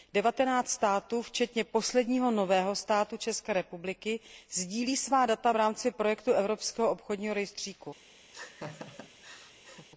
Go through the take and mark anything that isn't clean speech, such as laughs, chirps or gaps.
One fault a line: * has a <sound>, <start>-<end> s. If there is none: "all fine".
* has a laugh, 8.3-9.9 s